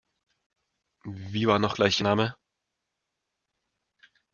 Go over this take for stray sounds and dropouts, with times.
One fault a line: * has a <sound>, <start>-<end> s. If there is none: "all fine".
all fine